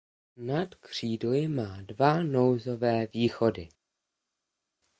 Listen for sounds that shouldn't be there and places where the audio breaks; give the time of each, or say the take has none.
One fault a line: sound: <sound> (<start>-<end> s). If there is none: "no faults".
no faults